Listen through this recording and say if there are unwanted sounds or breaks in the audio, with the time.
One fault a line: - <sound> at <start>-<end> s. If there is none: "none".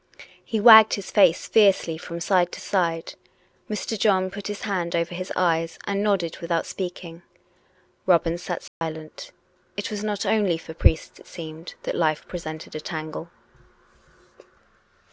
- dropout at 8.7-8.8 s